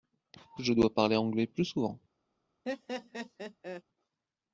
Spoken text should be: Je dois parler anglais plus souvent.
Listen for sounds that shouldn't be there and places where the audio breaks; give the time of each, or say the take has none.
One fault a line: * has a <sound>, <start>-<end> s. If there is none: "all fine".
* has a laugh, 2.7-3.8 s